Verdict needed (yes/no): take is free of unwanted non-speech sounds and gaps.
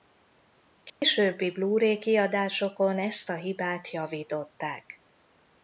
no